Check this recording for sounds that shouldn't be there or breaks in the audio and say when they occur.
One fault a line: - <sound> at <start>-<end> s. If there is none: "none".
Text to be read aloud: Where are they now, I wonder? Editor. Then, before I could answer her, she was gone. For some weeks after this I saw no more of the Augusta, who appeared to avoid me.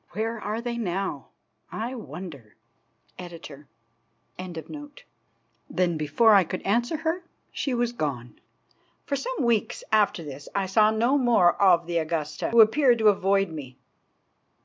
none